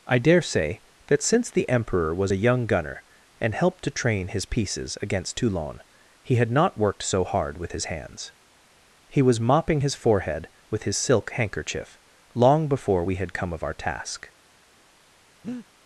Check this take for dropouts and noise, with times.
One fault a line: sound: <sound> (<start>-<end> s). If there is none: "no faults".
sound: breath (15.4-15.7 s)